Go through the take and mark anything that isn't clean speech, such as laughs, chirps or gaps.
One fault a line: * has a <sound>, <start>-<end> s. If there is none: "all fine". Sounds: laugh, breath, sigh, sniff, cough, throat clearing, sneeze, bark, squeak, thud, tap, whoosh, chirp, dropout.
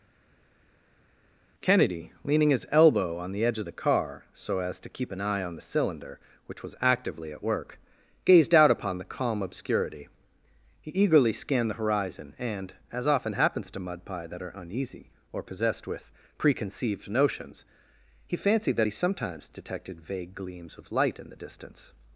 all fine